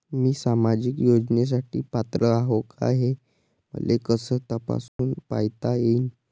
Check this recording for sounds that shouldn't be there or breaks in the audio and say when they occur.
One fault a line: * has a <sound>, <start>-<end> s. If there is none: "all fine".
* has a dropout, 4.9-5.0 s